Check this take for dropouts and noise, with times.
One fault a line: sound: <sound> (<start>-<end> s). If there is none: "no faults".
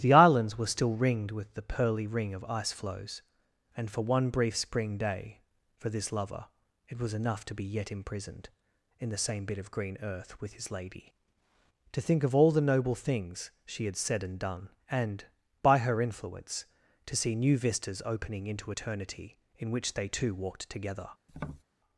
sound: tap (21.3-21.6 s)